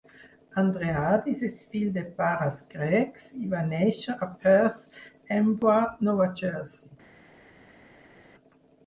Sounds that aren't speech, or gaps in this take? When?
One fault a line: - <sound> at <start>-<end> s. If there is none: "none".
none